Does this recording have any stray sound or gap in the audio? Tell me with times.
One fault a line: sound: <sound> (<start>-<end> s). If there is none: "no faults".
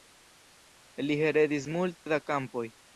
sound: dropout (2.0-2.1 s)